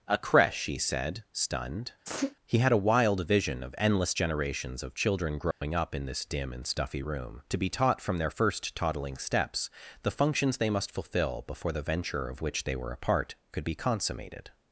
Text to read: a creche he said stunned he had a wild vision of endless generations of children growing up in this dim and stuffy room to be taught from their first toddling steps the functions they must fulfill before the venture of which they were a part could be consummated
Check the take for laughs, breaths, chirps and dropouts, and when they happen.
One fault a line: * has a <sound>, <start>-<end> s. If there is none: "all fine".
* has a sneeze, 2.0-2.4 s
* has a dropout, 5.5-5.6 s